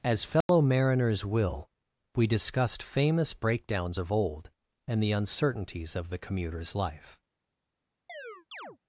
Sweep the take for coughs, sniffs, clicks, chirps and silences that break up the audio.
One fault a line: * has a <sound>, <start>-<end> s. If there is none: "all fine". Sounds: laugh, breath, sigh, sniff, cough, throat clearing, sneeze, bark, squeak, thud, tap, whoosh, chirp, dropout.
* has a dropout, 0.4-0.5 s
* has a chirp, 8.1-8.8 s